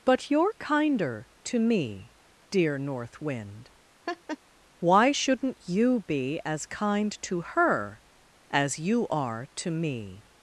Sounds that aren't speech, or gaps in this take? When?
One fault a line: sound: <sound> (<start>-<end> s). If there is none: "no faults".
sound: laugh (4.1-4.4 s)